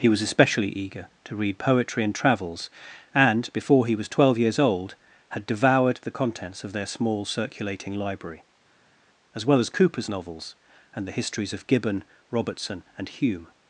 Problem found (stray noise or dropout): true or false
false